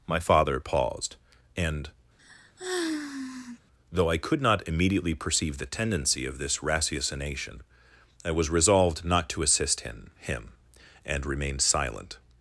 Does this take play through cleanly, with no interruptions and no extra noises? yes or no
no